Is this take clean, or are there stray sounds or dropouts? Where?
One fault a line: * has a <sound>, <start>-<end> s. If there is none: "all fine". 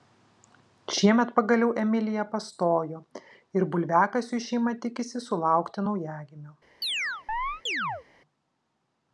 * has a chirp, 6.8-8.0 s